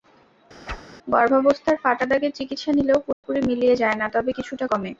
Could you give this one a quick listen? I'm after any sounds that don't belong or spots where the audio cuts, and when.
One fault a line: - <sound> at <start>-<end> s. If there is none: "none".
- whoosh at 0.7-0.8 s
- dropout at 3.1-3.2 s